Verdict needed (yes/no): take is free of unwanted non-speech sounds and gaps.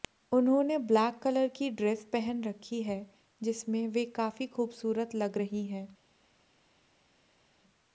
yes